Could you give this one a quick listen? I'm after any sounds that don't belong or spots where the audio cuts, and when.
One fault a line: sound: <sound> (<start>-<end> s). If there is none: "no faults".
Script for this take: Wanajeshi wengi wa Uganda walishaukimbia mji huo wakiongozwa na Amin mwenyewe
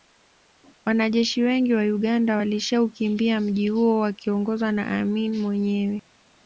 no faults